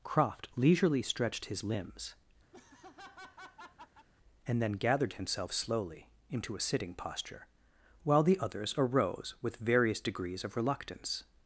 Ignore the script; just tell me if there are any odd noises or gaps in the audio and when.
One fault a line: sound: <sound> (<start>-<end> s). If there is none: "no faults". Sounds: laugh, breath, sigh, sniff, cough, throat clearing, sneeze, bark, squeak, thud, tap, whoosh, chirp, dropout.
sound: laugh (2.5-4.1 s)